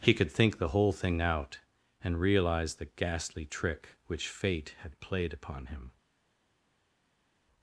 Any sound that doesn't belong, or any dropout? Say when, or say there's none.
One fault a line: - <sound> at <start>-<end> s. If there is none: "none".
none